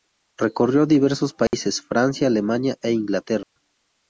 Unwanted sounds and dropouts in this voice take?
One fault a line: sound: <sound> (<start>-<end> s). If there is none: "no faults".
sound: dropout (1.5-1.5 s)
sound: dropout (3.4-3.6 s)